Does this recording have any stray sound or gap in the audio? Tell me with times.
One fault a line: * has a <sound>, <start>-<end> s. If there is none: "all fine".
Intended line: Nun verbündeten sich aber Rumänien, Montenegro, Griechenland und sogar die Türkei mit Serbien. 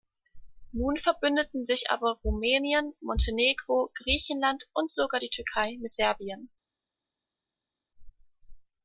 all fine